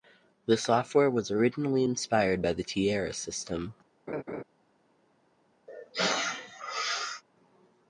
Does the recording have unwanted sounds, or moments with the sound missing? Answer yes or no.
yes